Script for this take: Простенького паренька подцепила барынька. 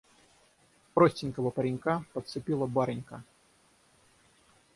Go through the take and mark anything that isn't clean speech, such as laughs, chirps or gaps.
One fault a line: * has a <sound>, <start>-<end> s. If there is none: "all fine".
all fine